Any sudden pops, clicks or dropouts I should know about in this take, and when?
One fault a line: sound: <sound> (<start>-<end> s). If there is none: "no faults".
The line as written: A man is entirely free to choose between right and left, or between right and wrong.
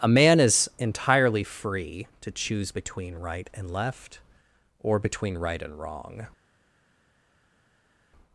no faults